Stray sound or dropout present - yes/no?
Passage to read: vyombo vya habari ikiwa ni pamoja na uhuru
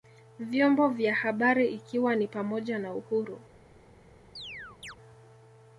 yes